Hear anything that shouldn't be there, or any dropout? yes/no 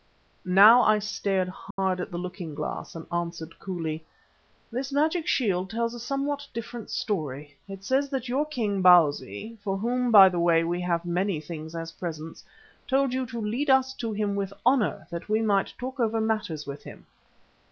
yes